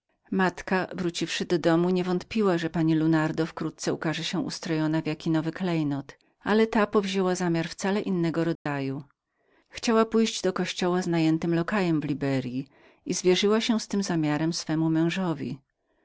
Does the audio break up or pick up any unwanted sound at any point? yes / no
yes